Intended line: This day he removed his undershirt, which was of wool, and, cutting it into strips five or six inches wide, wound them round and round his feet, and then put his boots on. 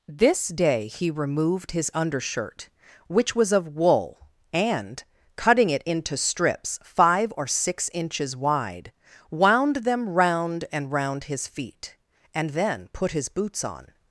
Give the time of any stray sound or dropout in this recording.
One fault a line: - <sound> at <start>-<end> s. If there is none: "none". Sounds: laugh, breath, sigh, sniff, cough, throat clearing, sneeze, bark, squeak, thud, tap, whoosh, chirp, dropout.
none